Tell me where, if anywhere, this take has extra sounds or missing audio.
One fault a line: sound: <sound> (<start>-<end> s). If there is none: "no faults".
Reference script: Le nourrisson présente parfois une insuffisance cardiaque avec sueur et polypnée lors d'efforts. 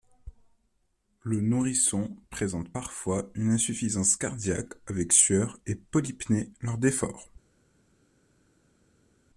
no faults